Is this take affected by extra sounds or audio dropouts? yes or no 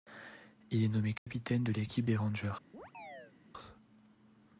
yes